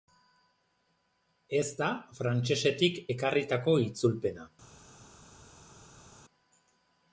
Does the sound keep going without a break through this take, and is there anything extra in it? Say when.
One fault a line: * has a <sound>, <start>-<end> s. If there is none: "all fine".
all fine